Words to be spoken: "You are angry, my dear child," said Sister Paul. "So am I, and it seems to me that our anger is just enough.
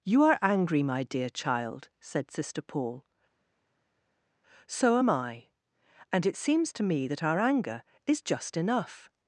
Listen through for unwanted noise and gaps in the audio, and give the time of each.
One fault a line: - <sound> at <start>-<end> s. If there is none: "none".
none